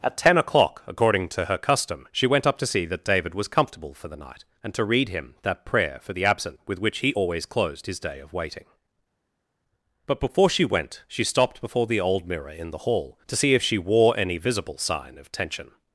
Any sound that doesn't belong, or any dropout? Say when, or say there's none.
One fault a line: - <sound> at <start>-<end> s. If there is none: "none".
none